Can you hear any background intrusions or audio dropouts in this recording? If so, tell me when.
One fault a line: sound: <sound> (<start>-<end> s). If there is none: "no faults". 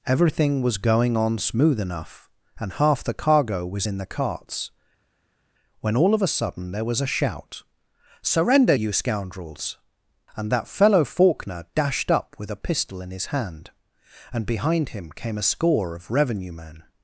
no faults